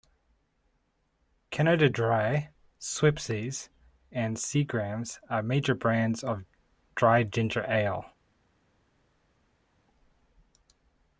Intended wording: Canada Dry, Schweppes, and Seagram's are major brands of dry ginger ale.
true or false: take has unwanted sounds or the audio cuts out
false